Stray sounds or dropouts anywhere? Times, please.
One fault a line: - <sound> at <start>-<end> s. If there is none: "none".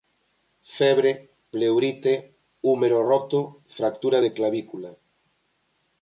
none